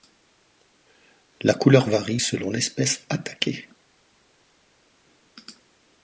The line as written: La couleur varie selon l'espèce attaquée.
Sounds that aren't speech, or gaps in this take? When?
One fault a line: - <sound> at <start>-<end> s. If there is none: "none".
none